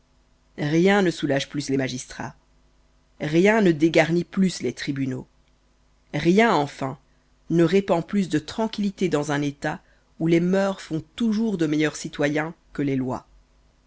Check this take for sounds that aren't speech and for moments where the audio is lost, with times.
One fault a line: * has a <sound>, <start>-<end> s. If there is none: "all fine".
all fine